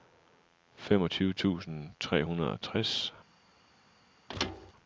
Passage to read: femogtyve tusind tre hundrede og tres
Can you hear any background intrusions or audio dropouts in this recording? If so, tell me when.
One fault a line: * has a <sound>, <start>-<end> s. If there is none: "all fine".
* has a thud, 4.3-4.7 s